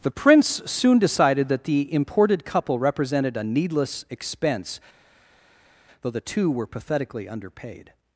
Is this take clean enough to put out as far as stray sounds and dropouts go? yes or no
yes